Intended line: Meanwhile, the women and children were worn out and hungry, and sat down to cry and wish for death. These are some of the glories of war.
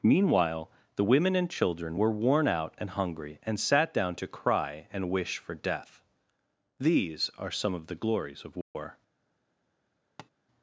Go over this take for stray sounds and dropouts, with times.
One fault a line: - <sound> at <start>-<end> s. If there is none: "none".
- dropout at 8.6-8.7 s
- tap at 10.2-10.3 s